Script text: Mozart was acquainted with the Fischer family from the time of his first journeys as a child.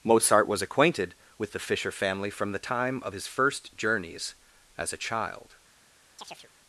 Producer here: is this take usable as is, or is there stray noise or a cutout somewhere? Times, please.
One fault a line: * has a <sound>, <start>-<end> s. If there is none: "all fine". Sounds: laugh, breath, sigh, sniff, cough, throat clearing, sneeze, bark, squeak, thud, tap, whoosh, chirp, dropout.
* has a chirp, 6.2-6.5 s